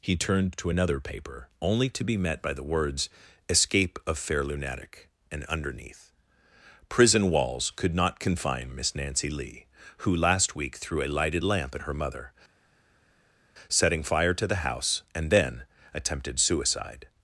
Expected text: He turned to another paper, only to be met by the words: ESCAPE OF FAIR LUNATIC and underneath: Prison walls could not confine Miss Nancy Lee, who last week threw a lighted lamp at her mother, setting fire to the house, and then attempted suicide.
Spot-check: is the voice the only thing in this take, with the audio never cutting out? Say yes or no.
yes